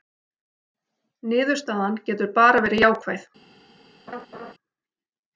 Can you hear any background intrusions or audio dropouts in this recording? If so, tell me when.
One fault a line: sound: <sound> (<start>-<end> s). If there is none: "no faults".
sound: laugh (4.1-4.5 s)